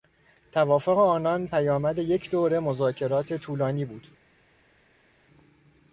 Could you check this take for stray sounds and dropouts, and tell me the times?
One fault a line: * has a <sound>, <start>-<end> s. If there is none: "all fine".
all fine